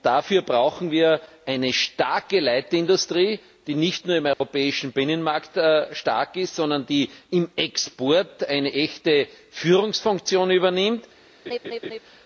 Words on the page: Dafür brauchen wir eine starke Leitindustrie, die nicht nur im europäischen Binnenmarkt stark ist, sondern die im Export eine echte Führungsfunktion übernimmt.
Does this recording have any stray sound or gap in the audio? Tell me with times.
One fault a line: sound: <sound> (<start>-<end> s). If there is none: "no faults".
sound: dropout (4.3-4.4 s)
sound: laugh (11.5-12.0 s)